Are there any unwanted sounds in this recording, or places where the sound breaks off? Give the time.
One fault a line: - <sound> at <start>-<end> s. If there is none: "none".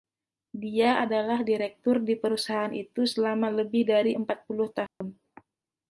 - dropout at 4.9-5.0 s